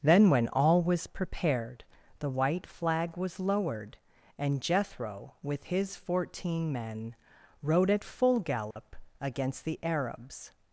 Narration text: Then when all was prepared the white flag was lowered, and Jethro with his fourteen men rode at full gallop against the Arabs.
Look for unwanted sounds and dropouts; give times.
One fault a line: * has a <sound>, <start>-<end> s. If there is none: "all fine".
* has a dropout, 8.7-8.8 s